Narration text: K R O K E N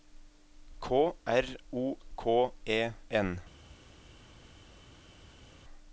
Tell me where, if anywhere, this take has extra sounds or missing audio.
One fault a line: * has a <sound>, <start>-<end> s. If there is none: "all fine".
all fine